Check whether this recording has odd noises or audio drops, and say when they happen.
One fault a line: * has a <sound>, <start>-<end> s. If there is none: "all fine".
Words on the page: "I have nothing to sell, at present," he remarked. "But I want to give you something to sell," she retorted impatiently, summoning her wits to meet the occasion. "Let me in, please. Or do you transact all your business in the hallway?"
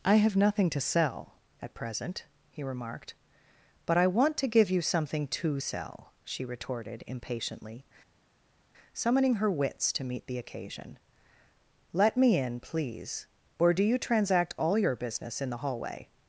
all fine